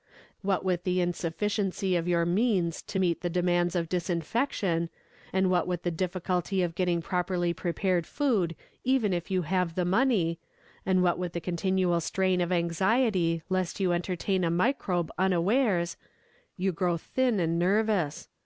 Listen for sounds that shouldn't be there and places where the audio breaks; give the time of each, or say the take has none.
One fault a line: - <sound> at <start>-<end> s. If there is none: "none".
none